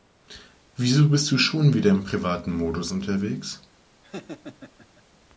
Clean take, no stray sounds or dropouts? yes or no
no